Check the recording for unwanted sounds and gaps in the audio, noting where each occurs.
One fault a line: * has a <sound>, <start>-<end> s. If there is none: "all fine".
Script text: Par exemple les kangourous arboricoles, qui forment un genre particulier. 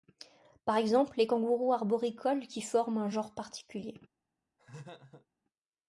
* has a laugh, 4.6-5.3 s